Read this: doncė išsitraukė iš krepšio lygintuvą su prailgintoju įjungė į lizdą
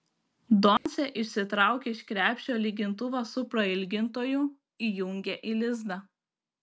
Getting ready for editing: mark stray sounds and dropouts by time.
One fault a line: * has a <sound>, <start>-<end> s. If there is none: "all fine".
* has a dropout, 0.8-0.9 s